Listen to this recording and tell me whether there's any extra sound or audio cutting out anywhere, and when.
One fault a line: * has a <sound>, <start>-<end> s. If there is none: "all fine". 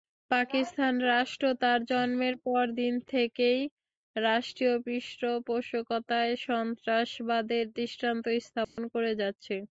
* has a dropout, 8.6-8.8 s